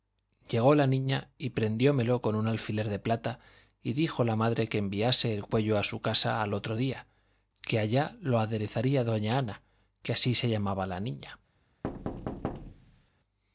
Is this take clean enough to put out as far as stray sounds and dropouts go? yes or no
no